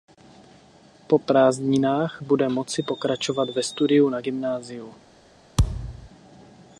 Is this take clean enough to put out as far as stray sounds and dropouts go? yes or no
no